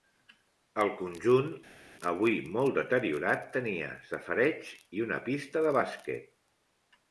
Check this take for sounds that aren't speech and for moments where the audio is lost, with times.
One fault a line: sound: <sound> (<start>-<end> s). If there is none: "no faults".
no faults